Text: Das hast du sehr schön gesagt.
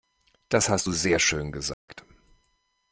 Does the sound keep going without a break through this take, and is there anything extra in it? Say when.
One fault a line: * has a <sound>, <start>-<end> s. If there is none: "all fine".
* has a dropout, 1.7-1.9 s